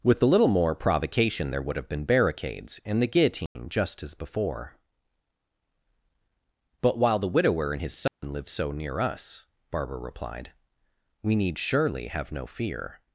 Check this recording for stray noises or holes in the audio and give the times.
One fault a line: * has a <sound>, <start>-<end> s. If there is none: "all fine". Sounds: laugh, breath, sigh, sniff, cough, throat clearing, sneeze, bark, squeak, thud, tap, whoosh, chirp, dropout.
* has a dropout, 3.5-3.6 s
* has a dropout, 8.1-8.2 s